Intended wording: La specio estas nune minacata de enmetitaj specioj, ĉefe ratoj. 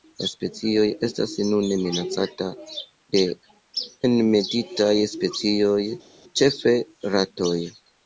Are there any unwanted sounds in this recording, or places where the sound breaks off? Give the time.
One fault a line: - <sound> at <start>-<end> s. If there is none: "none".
none